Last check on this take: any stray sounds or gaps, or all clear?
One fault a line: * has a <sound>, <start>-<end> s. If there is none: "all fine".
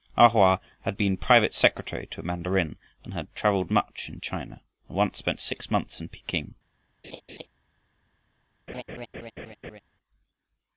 * has a laugh, 7.0-7.5 s
* has a laugh, 8.7-9.8 s